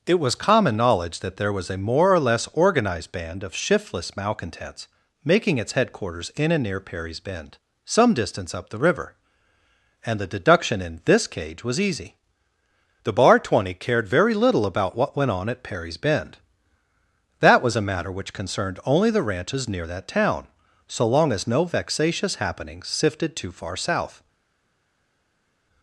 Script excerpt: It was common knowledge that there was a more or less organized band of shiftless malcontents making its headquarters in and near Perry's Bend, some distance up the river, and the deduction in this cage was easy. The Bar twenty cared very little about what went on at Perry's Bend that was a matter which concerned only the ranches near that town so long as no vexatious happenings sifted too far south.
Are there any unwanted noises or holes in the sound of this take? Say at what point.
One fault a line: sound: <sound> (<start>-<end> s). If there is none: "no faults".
no faults